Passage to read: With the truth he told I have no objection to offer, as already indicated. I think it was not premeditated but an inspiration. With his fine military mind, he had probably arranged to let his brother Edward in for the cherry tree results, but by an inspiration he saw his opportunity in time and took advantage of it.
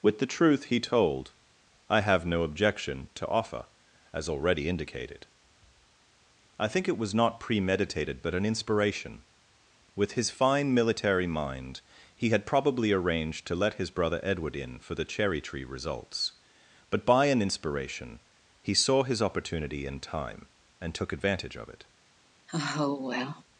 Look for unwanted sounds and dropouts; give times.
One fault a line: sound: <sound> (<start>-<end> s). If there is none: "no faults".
sound: sigh (22.5-23.4 s)